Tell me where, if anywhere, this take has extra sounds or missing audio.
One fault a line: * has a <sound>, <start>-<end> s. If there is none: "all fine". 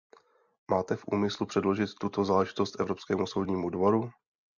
all fine